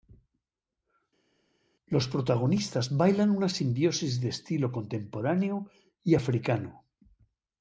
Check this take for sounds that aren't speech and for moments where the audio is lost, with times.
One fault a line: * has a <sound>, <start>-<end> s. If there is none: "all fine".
all fine